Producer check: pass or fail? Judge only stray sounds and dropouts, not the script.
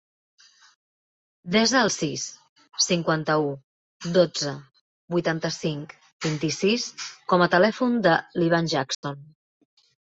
fail